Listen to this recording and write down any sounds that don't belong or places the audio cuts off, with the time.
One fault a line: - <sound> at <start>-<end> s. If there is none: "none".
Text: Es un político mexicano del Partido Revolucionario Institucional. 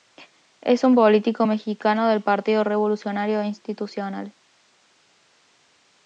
none